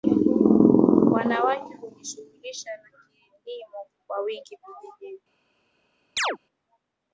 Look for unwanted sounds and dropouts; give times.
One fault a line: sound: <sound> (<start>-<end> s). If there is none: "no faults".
sound: chirp (6.2-6.4 s)